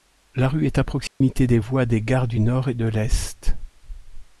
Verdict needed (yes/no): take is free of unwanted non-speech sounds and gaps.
no